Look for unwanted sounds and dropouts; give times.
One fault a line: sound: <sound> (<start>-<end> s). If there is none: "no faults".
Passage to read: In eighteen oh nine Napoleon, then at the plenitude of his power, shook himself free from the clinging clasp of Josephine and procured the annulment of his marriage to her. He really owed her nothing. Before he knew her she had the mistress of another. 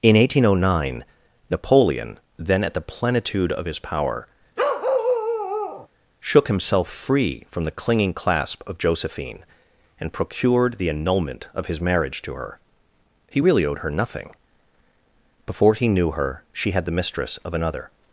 sound: bark (4.6-5.9 s)